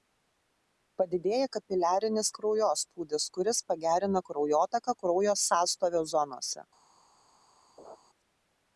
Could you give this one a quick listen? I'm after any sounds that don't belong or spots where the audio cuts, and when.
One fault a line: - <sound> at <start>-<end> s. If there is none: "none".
- laugh at 7.8-8.0 s